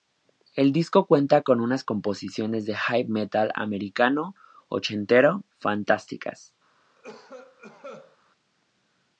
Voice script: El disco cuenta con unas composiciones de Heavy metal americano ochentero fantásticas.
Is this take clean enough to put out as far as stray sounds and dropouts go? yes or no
no